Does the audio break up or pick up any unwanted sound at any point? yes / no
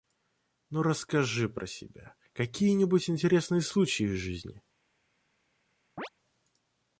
yes